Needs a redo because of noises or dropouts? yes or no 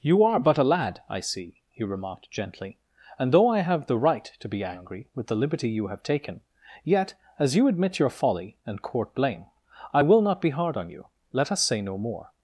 no